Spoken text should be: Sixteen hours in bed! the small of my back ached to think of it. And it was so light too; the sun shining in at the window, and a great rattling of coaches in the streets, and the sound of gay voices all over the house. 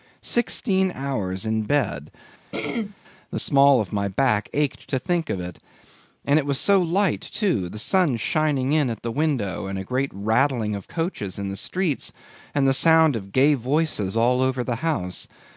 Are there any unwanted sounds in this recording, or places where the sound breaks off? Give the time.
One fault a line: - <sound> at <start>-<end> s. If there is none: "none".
- throat clearing at 2.5-3.0 s